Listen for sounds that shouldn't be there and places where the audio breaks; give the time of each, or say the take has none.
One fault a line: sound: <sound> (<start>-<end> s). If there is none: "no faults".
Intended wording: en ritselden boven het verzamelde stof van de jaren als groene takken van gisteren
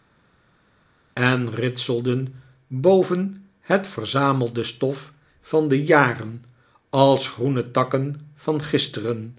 no faults